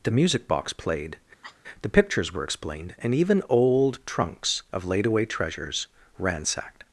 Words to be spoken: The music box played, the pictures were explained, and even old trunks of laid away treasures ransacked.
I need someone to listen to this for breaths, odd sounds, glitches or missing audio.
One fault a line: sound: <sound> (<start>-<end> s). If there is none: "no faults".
sound: cough (1.4-1.6 s)